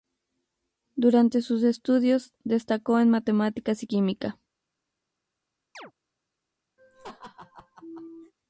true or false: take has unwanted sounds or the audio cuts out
true